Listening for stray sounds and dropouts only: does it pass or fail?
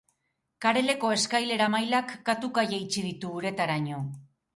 pass